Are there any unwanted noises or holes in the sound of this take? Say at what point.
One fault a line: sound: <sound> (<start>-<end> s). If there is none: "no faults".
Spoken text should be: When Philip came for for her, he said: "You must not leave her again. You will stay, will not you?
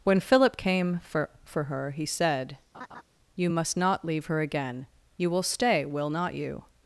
sound: laugh (2.7-3.0 s)